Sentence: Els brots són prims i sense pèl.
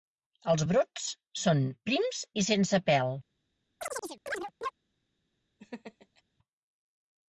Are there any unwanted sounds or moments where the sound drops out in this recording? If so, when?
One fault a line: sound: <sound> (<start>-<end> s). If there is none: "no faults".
sound: chirp (3.8-4.7 s)
sound: laugh (5.6-6.2 s)